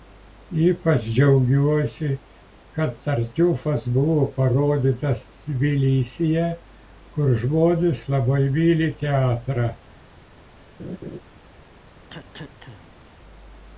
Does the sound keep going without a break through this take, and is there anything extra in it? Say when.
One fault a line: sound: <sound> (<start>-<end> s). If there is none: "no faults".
sound: laugh (10.8-11.2 s)
sound: cough (12.1-13.1 s)